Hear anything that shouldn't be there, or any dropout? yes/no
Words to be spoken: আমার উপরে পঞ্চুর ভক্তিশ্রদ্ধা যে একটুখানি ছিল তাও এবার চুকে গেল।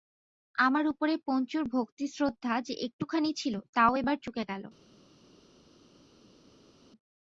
no